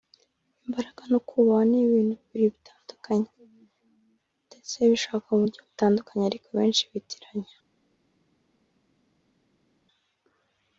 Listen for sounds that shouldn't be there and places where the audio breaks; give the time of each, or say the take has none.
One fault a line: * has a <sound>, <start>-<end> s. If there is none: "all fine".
all fine